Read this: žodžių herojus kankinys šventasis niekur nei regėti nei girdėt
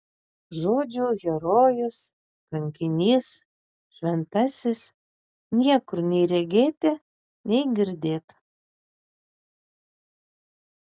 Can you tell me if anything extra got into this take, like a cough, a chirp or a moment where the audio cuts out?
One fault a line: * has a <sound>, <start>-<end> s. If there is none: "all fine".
all fine